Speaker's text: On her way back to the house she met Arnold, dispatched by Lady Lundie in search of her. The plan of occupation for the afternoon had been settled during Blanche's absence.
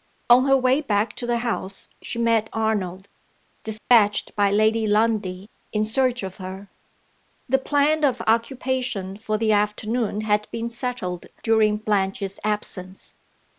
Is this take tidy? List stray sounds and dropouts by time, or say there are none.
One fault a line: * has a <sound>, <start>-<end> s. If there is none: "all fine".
* has a dropout, 3.8-3.9 s